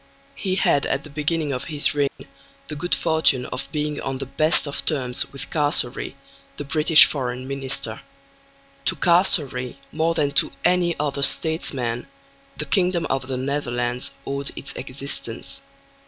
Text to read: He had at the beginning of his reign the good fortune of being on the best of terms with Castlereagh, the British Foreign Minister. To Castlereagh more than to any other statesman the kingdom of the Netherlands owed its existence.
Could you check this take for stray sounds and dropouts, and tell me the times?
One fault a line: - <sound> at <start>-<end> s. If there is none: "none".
- dropout at 2.1-2.2 s